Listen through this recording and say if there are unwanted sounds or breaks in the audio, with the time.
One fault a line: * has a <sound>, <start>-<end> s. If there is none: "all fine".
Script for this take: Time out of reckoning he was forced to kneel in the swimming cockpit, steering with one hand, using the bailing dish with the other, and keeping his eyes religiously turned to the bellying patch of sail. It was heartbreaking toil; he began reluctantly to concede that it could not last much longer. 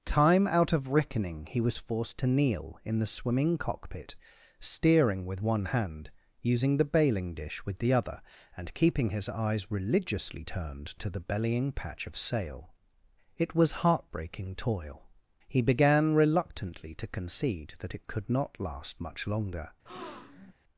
* has a breath, 19.9-20.5 s